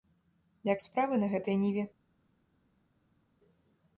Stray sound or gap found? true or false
false